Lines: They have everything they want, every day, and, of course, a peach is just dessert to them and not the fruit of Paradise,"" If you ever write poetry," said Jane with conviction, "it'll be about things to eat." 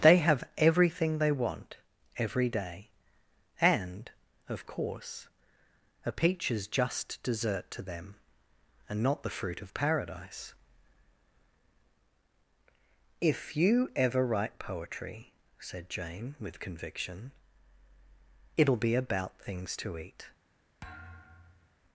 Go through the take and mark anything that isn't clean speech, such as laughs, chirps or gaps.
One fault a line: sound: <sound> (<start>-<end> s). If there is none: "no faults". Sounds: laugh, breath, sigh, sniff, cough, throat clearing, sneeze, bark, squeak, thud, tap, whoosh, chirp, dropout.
sound: thud (20.8-21.8 s)